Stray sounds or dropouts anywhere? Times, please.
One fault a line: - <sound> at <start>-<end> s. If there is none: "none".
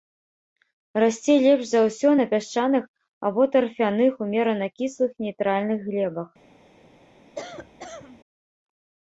- cough at 7.3-8.2 s